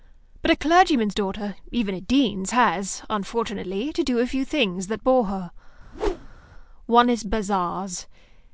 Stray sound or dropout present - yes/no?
yes